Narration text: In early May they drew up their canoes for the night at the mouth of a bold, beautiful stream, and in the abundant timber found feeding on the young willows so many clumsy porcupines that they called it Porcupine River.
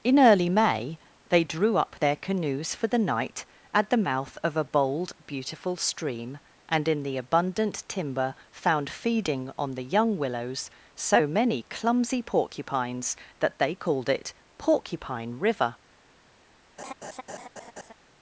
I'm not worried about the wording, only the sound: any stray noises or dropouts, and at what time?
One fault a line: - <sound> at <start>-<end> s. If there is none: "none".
- laugh at 16.8-17.9 s